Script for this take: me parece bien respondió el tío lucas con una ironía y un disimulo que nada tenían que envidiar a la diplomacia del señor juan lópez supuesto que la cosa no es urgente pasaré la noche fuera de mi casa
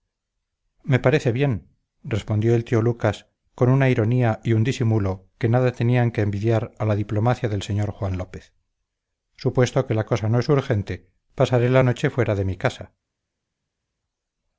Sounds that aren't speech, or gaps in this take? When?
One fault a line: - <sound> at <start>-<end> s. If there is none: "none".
none